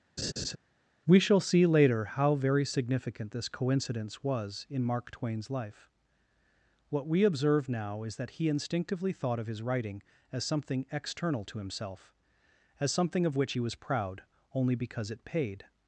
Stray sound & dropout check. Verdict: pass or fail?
fail